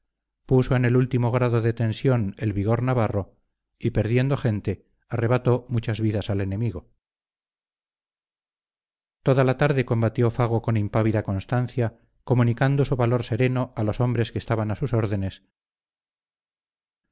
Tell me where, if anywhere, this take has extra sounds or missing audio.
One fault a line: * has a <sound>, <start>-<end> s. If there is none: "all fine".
all fine